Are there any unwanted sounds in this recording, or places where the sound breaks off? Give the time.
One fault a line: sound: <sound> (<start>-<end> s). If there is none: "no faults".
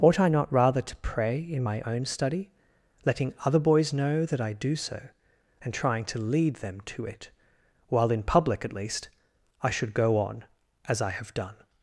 no faults